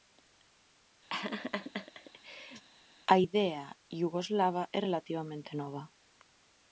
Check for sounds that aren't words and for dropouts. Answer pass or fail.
fail